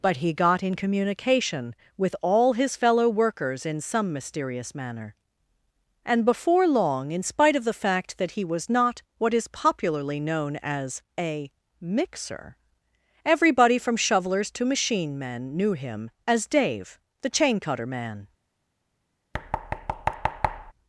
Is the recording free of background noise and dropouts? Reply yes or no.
no